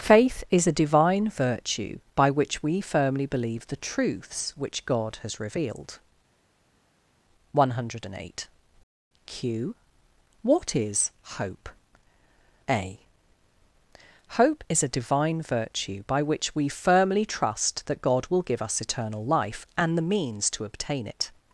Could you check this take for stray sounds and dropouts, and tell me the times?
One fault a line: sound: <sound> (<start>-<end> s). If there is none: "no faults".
no faults